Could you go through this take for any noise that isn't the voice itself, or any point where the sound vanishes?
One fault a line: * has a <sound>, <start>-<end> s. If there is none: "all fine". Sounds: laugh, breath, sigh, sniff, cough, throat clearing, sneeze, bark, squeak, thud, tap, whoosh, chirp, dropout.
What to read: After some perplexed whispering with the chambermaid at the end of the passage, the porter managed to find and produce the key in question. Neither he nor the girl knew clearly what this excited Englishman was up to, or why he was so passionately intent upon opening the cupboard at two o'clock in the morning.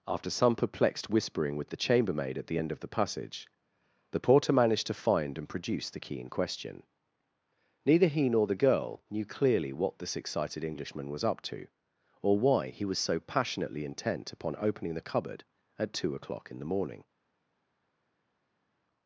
all fine